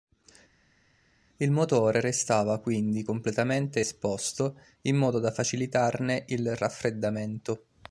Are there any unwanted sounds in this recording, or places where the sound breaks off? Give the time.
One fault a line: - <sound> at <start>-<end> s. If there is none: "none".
none